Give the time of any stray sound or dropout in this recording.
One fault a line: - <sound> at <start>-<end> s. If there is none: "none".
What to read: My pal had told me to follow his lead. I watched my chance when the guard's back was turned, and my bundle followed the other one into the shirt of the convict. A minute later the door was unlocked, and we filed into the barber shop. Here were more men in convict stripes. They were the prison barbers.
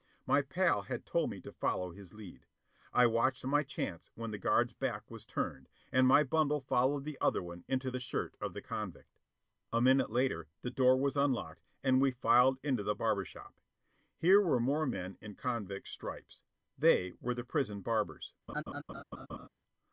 - laugh at 18.5-19.5 s